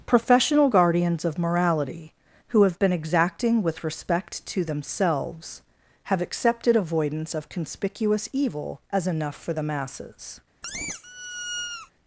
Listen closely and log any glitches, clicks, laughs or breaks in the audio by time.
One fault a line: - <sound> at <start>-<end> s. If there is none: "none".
- squeak at 10.6-11.9 s